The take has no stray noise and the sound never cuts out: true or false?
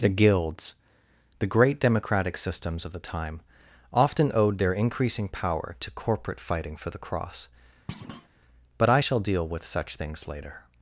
false